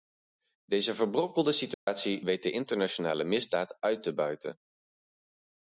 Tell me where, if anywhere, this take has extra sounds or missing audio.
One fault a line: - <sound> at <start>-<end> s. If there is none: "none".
- dropout at 1.7-1.9 s